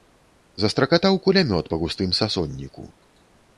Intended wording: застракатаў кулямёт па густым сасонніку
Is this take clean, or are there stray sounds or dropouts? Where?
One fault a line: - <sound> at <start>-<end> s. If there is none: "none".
none